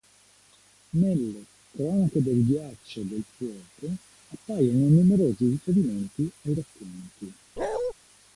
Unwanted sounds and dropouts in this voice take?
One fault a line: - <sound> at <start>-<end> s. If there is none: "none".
- bark at 7.6-7.9 s